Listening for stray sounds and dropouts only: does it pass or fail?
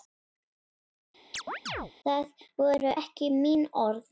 fail